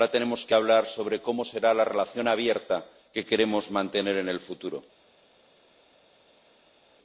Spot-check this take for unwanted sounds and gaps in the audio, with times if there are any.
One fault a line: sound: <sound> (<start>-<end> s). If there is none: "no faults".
no faults